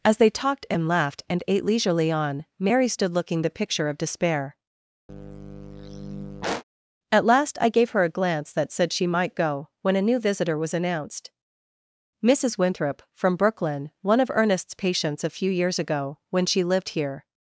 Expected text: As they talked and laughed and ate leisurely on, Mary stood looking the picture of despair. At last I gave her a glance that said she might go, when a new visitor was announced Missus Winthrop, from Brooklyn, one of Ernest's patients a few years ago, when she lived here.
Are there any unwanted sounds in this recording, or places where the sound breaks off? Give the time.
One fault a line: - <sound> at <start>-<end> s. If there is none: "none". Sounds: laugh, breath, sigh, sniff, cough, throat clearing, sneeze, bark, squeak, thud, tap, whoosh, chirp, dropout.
- sigh at 5.1-6.6 s